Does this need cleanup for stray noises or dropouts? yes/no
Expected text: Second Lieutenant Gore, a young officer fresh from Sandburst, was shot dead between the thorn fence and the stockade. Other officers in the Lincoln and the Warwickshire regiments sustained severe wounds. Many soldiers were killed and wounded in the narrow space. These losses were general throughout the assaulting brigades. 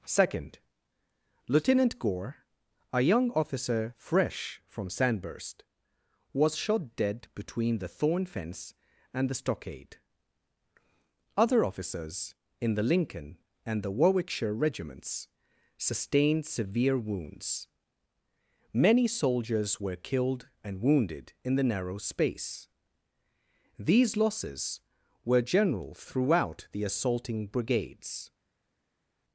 no